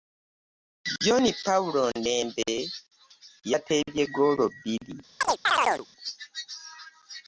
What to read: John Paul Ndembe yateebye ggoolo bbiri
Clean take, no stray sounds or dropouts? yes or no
no